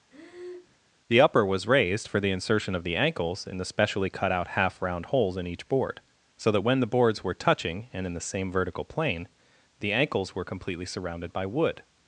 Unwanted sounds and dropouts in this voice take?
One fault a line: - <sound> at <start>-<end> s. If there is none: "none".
- breath at 0.1-0.8 s